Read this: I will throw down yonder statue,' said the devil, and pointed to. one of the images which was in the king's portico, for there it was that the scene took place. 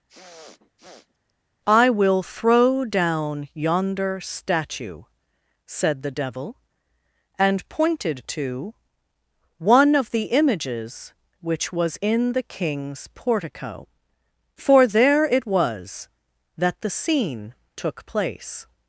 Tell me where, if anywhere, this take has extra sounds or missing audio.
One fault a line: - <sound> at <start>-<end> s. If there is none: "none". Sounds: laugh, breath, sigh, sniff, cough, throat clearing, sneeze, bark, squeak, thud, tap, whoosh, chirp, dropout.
- sniff at 0.1-1.3 s